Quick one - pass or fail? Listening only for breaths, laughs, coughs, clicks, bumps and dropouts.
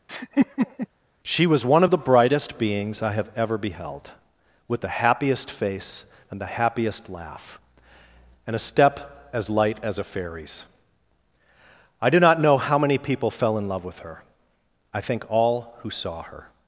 fail